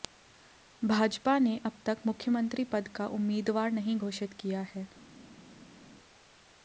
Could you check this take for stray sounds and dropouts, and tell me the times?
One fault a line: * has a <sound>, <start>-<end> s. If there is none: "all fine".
all fine